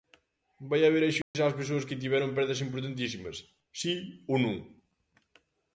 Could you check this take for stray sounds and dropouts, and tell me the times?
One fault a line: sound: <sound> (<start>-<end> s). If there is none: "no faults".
sound: dropout (1.2-1.3 s)